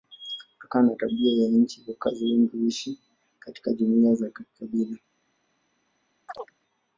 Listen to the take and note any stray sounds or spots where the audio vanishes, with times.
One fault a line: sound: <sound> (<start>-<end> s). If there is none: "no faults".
sound: chirp (6.3-6.5 s)